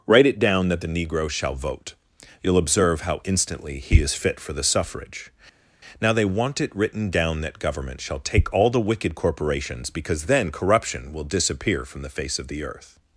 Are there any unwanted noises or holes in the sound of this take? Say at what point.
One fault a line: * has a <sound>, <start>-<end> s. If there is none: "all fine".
all fine